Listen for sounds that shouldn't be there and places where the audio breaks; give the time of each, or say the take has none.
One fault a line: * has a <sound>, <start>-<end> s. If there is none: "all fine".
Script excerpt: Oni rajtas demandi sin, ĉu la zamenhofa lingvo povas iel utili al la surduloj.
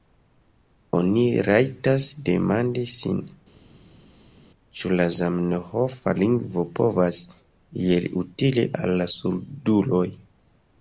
all fine